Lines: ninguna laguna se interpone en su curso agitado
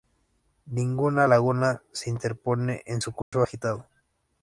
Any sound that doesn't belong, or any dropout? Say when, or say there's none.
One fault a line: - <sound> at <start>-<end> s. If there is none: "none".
- dropout at 3.2-3.3 s